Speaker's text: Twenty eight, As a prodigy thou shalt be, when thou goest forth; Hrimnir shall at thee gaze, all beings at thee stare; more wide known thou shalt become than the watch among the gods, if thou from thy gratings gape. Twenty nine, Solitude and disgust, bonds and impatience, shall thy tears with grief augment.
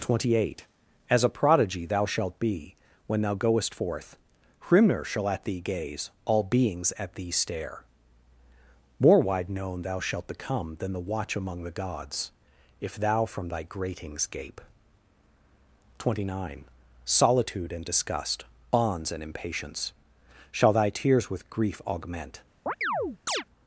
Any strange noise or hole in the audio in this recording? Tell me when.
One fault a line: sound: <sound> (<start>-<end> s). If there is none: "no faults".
sound: chirp (22.7-23.4 s)